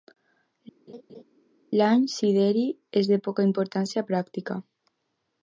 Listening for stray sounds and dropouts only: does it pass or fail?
fail